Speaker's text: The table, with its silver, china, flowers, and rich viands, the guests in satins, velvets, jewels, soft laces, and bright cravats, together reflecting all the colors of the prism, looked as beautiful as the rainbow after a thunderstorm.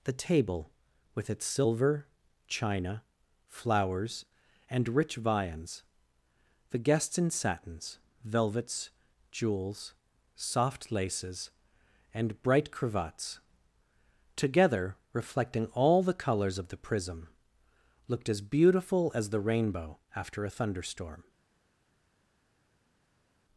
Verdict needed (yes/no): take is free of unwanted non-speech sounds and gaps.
yes